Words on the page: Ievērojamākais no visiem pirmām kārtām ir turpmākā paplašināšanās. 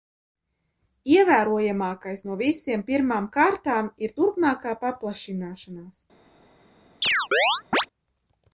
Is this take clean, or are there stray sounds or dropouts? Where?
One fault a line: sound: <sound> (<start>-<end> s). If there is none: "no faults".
sound: chirp (7.0-7.9 s)